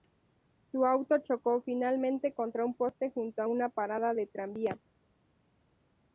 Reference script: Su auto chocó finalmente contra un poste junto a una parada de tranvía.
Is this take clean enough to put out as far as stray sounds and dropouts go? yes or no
yes